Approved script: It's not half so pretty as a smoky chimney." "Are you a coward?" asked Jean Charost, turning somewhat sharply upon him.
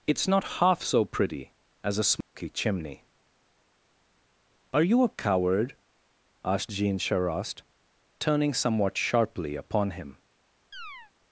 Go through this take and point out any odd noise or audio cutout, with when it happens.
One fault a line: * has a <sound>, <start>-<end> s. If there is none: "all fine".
* has a dropout, 2.2-2.3 s
* has a chirp, 10.7-11.1 s